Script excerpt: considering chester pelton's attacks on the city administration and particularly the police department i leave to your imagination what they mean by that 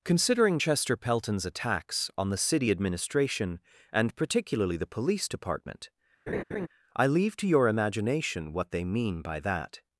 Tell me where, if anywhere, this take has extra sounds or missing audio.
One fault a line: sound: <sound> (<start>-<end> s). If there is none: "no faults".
sound: laugh (6.3-6.7 s)